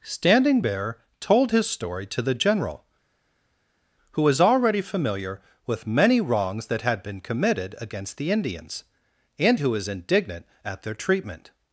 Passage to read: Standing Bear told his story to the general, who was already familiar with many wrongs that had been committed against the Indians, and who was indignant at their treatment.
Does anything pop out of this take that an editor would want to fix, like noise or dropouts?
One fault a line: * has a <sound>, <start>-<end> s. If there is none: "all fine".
all fine